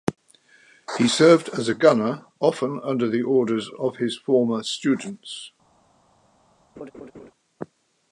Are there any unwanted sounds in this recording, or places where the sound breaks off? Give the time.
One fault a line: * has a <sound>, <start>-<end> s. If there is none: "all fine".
* has a laugh, 6.8-7.3 s